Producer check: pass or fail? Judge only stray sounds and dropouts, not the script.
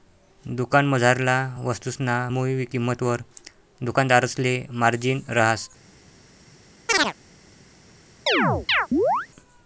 fail